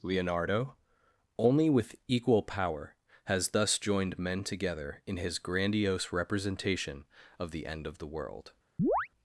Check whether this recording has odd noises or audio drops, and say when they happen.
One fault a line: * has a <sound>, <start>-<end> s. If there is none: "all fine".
* has a chirp, 8.8-9.1 s